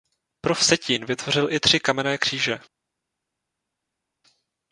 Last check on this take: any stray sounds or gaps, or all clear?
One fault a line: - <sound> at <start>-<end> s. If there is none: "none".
none